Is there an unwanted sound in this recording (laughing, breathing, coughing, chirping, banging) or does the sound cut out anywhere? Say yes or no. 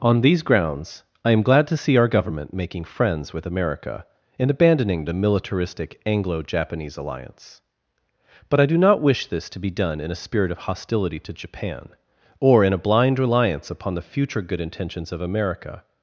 no